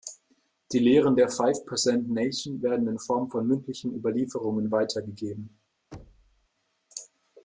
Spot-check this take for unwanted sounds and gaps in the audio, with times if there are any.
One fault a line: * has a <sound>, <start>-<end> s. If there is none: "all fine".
* has a thud, 5.9-6.5 s